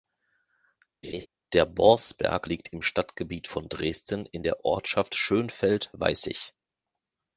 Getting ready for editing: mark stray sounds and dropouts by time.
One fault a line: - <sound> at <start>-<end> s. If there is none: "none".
- laugh at 1.0-1.3 s